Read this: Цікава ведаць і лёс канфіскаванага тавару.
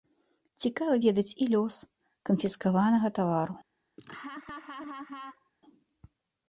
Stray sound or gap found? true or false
true